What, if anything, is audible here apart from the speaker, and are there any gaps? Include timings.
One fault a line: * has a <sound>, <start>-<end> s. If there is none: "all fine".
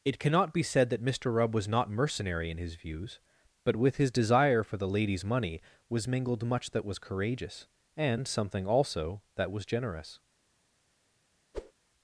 * has a whoosh, 11.5-11.7 s